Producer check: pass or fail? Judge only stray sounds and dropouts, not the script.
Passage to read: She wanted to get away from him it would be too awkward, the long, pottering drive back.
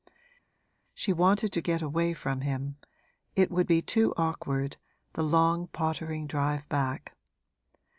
pass